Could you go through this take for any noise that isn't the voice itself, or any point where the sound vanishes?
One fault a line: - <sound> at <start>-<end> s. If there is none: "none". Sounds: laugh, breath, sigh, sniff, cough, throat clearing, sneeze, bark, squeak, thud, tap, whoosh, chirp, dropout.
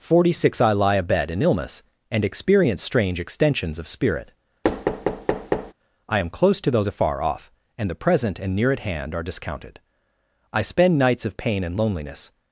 - thud at 4.6-5.7 s